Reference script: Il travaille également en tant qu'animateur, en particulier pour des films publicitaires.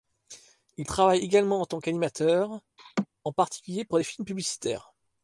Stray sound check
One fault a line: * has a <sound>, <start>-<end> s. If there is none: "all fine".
* has a laugh, 2.8-3.1 s